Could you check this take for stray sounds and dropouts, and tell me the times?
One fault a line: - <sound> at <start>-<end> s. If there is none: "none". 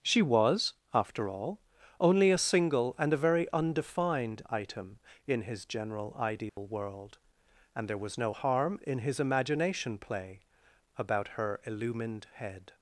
- dropout at 6.5-6.6 s